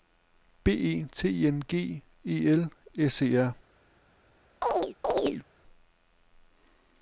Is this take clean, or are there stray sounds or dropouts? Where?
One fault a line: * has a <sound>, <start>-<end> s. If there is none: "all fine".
* has a chirp, 4.6-5.4 s